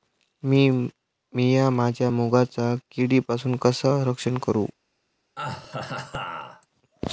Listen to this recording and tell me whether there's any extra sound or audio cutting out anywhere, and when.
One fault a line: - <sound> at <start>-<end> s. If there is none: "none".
- laugh at 5.4-6.7 s